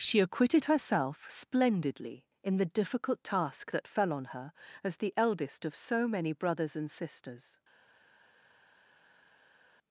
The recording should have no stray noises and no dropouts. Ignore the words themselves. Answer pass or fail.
pass